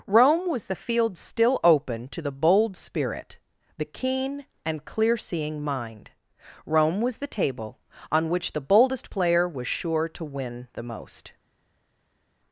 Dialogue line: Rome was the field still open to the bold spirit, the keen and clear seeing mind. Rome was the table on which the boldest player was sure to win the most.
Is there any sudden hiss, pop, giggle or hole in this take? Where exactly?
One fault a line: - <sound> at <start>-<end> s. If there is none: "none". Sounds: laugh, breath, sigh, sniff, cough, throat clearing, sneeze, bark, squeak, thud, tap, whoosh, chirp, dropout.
none